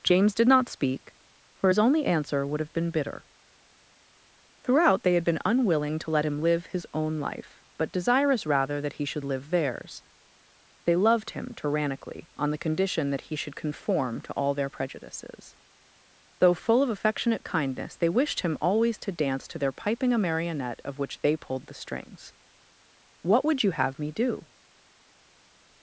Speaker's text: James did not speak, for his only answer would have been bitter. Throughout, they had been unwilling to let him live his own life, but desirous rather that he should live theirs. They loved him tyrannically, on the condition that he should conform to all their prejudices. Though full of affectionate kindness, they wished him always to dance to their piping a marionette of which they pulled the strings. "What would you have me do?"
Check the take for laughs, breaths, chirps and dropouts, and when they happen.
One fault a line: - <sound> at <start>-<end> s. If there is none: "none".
none